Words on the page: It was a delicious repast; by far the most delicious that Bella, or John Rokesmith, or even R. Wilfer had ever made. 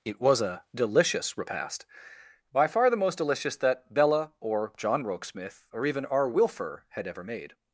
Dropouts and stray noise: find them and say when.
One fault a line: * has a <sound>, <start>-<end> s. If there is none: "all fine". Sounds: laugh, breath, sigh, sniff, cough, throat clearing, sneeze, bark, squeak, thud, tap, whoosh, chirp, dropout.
all fine